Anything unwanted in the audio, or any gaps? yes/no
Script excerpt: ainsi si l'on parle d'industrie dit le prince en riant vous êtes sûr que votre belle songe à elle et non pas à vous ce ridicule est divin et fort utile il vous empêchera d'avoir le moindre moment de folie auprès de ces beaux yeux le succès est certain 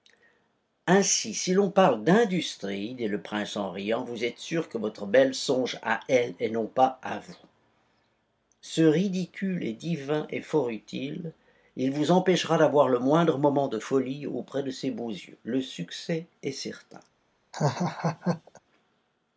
yes